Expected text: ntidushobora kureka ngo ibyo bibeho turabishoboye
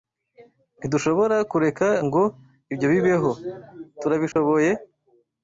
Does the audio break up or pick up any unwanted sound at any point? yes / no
yes